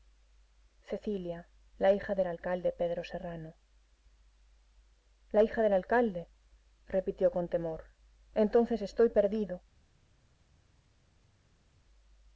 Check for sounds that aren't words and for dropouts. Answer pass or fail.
pass